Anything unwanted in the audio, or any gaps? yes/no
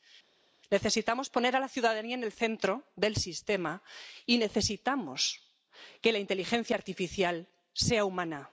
no